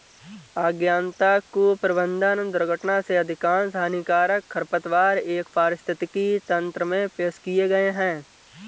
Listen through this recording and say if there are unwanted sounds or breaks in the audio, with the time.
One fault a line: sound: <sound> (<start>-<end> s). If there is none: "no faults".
no faults